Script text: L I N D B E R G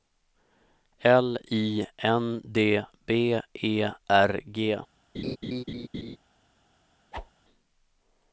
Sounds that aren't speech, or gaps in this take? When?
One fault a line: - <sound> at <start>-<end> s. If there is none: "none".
- laugh at 5.1-6.2 s
- whoosh at 7.1-7.3 s